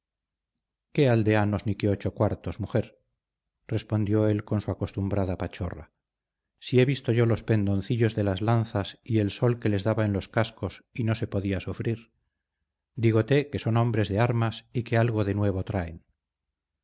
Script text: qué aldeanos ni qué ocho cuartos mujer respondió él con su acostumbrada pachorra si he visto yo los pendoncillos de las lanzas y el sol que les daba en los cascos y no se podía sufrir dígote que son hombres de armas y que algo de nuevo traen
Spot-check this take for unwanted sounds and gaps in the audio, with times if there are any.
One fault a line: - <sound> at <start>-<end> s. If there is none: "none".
none